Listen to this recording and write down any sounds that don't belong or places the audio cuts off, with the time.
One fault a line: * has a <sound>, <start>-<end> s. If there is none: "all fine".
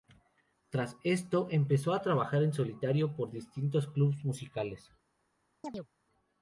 * has a chirp, 5.6-5.9 s